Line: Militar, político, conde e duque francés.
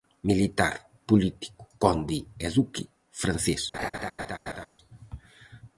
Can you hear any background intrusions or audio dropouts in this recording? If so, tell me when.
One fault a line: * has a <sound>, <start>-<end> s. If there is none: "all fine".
* has a laugh, 3.7-4.7 s